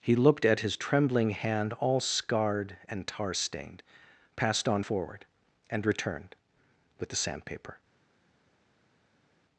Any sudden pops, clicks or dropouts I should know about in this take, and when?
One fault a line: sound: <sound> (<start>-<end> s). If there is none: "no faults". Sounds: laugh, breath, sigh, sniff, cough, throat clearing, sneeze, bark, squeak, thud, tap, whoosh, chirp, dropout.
no faults